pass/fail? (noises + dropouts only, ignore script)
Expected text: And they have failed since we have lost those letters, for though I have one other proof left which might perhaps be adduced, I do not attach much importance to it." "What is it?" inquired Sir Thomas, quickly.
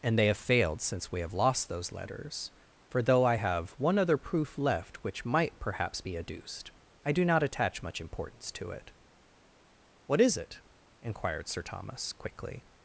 pass